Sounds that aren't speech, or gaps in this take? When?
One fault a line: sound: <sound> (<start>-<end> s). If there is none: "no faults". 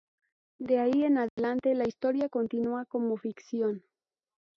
sound: dropout (1.3-1.4 s)